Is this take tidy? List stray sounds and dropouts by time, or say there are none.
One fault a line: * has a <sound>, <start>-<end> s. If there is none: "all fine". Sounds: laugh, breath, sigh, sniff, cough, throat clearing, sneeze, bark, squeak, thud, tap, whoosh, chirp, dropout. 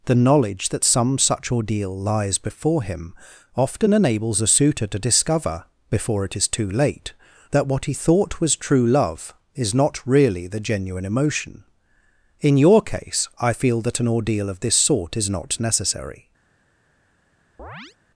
* has a chirp, 17.6-18.0 s